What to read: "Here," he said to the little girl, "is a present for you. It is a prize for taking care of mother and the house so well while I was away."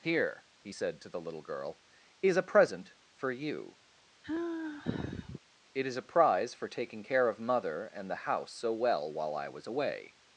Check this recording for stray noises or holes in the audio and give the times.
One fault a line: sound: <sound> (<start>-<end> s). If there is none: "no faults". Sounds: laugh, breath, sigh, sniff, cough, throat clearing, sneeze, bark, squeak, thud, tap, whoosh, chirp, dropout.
sound: sigh (4.2-5.4 s)